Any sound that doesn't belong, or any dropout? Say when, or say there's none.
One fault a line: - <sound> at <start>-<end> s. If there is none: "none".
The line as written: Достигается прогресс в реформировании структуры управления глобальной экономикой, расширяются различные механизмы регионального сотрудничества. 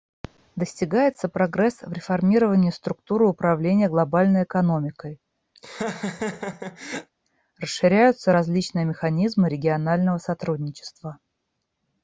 - laugh at 5.5-7.1 s